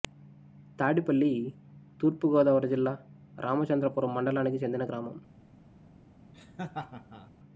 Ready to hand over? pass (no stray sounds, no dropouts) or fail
fail